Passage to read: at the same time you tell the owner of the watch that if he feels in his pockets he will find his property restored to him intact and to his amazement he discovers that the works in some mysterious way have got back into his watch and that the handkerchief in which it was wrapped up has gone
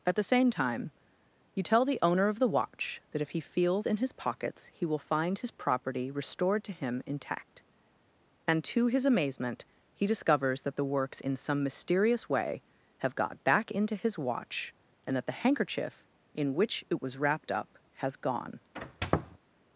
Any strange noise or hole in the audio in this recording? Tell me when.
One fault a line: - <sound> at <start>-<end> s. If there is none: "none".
- squeak at 18.8-19.4 s